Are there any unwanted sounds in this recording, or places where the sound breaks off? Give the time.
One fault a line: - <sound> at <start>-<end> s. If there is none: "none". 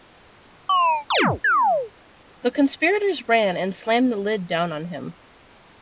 - chirp at 0.7-1.9 s